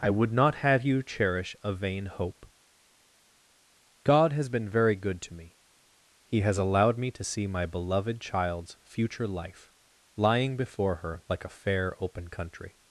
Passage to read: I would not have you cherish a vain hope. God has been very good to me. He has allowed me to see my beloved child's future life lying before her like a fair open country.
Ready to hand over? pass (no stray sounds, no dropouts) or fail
pass